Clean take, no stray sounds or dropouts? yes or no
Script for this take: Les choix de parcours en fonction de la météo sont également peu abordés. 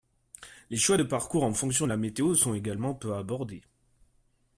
yes